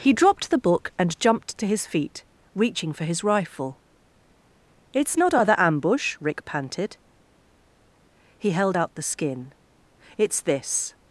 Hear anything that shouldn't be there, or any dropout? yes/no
no